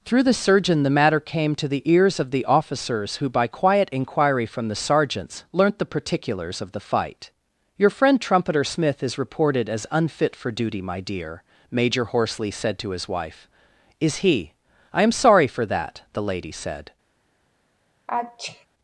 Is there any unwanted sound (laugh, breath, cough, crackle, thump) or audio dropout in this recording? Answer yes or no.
yes